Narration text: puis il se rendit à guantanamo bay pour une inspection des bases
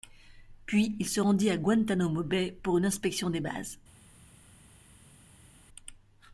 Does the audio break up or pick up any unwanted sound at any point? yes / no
no